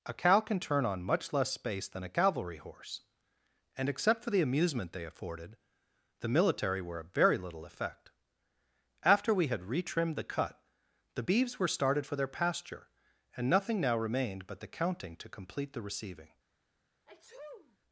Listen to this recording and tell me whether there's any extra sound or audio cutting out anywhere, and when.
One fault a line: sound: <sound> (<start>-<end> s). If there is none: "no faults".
sound: sneeze (17.1-17.8 s)